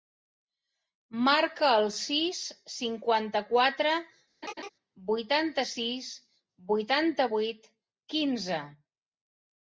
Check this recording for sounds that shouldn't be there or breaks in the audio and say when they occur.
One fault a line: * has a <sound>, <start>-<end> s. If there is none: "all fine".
* has a laugh, 4.4-4.7 s